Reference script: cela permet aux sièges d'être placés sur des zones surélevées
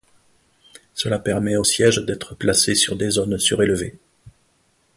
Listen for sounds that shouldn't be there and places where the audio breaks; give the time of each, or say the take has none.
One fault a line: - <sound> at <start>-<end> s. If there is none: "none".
none